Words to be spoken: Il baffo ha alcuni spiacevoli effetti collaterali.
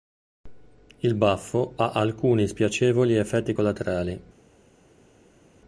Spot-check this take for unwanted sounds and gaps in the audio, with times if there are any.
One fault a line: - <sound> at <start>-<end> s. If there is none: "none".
none